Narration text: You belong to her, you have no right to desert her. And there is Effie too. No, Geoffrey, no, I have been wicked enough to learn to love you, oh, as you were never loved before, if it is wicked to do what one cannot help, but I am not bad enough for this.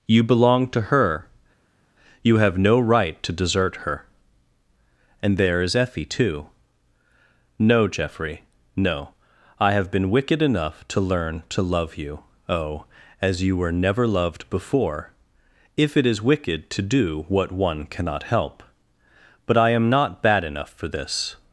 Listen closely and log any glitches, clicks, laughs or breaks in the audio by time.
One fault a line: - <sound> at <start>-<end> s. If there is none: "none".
none